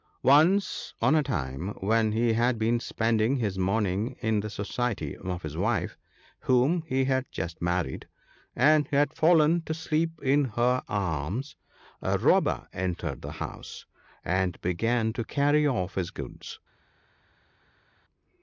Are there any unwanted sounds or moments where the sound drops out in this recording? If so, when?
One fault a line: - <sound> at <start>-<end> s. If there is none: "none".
none